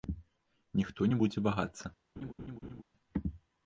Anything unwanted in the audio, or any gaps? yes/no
yes